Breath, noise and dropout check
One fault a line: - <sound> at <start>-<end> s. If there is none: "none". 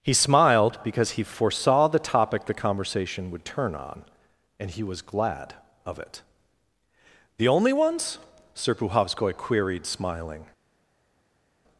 none